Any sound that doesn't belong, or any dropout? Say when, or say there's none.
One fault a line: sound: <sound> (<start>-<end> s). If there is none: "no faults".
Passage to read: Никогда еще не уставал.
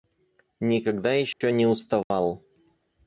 sound: dropout (1.3-1.4 s)
sound: dropout (2.0-2.1 s)